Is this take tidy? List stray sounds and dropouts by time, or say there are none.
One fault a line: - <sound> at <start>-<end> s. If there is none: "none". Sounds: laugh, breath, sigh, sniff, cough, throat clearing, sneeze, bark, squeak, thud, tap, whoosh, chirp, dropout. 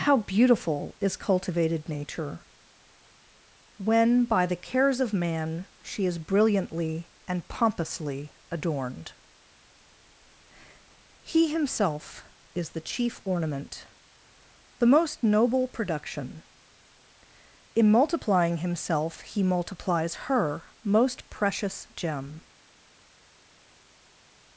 none